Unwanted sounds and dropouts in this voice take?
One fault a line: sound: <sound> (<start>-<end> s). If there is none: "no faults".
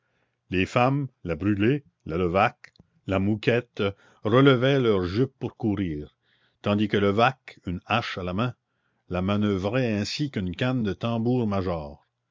no faults